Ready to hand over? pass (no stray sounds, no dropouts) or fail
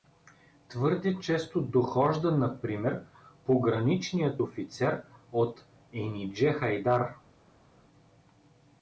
pass